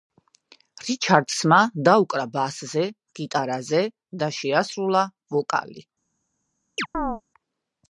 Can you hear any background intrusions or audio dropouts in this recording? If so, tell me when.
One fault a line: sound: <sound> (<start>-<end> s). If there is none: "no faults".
sound: chirp (6.8-7.2 s)